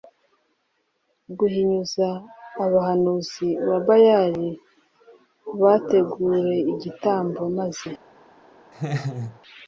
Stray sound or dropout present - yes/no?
yes